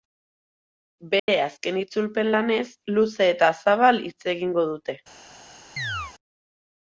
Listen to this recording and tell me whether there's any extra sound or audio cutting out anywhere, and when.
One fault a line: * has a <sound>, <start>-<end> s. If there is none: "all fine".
* has a dropout, 1.2-1.3 s
* has a chirp, 5.8-6.1 s